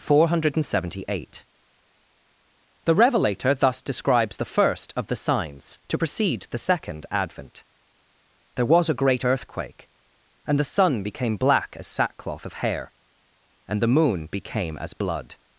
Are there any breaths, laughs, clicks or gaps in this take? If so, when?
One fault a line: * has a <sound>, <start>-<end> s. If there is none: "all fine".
all fine